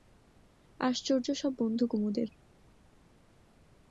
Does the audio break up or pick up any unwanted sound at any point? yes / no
no